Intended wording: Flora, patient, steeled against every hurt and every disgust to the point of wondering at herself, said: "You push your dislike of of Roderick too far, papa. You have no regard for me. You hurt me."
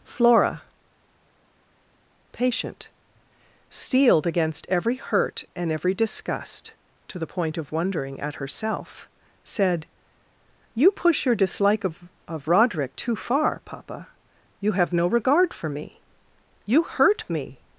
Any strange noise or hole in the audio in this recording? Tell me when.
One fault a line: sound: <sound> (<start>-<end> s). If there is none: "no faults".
no faults